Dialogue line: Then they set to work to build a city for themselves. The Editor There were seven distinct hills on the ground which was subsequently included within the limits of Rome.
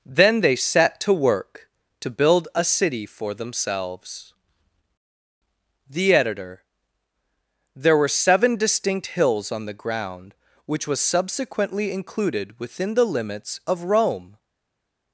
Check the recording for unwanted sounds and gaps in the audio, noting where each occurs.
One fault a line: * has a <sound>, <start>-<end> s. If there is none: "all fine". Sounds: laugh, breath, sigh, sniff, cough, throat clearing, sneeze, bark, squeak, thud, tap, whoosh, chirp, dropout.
all fine